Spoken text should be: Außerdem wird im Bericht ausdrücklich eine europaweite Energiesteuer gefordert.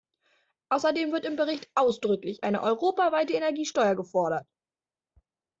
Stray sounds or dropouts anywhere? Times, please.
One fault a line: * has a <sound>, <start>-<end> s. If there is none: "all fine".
all fine